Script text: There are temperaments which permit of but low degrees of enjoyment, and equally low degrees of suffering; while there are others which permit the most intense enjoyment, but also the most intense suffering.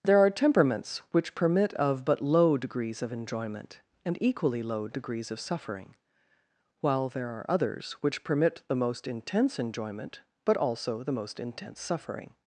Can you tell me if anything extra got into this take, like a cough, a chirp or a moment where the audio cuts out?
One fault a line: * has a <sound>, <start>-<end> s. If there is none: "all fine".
all fine